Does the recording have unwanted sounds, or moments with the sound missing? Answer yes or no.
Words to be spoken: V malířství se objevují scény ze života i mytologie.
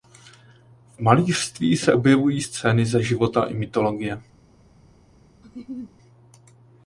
yes